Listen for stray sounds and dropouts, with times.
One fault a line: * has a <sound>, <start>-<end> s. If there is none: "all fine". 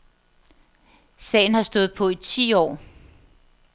all fine